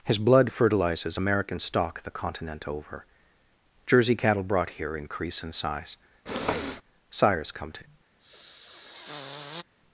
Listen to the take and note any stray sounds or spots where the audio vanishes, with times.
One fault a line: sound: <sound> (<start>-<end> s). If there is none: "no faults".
sound: sniff (6.3-6.8 s)
sound: sniff (8.2-9.6 s)